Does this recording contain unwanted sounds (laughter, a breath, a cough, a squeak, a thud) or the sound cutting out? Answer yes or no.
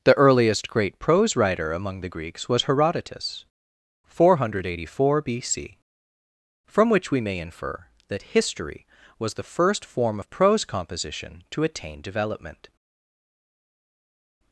no